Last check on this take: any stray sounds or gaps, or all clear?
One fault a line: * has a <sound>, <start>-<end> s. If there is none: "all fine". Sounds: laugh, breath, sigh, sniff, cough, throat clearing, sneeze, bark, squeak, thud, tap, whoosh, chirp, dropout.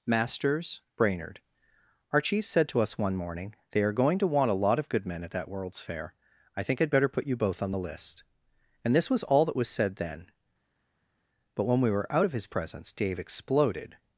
all fine